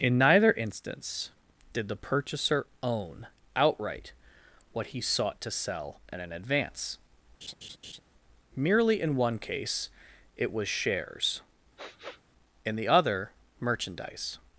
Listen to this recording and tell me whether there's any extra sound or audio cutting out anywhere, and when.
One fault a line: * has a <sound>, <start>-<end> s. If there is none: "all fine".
* has a laugh, 7.4-8.0 s
* has a sniff, 11.8-12.2 s